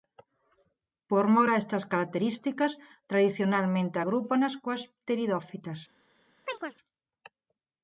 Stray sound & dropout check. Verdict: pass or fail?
fail